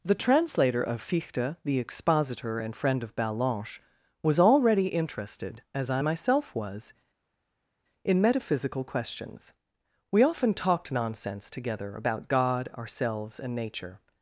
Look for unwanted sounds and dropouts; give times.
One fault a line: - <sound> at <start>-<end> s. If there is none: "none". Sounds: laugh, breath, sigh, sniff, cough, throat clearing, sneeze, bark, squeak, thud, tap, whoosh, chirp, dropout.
none